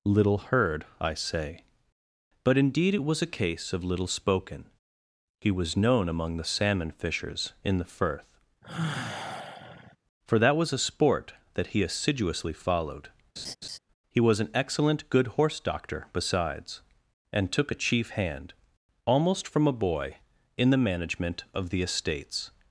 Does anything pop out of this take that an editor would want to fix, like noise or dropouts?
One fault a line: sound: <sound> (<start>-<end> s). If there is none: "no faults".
sound: sigh (8.6-10.0 s)
sound: laugh (13.4-13.8 s)